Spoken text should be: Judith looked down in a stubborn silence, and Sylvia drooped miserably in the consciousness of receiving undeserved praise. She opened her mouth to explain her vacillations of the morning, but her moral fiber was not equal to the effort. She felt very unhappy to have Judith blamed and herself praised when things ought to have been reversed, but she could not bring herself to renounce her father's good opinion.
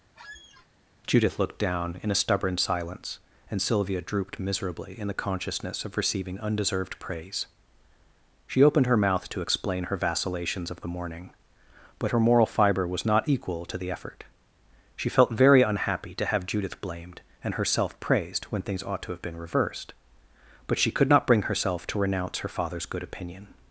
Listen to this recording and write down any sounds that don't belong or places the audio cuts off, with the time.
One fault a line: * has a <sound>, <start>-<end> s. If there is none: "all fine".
* has a squeak, 0.1-0.7 s